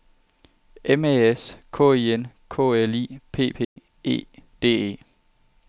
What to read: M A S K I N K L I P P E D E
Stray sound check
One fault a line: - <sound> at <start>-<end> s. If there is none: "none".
- dropout at 3.6-3.8 s